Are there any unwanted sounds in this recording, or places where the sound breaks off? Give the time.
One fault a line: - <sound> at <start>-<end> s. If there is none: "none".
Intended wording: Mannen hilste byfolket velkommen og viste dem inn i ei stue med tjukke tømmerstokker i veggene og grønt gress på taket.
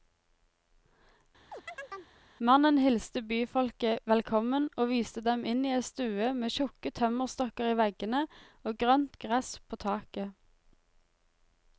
- chirp at 1.5-2.2 s